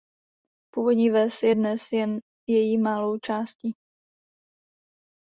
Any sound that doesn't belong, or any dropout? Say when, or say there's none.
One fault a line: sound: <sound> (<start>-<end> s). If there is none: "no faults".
no faults